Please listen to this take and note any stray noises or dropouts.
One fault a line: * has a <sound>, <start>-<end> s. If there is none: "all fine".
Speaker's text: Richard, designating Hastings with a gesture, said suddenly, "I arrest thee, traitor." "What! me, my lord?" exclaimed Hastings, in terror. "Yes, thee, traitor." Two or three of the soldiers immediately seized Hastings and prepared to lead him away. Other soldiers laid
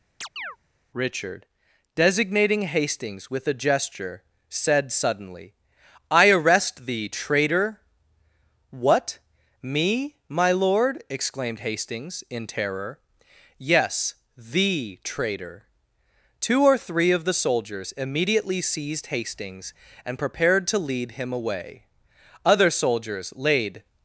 * has a chirp, 0.2-0.6 s